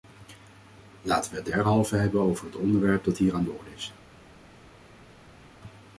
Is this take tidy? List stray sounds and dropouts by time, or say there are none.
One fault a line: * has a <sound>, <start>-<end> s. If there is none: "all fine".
all fine